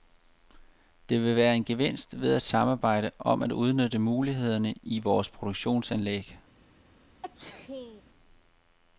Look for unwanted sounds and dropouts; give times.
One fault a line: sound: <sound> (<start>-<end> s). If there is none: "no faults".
sound: sneeze (7.2-8.0 s)